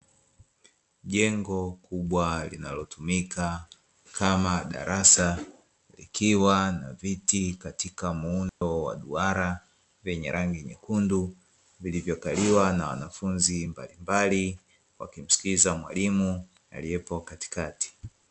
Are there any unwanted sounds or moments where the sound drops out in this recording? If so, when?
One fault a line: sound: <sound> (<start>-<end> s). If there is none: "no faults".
sound: dropout (8.5-8.6 s)